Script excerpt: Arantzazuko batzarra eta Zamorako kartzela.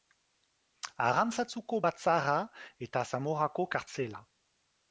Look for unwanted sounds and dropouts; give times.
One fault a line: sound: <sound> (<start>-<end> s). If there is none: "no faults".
no faults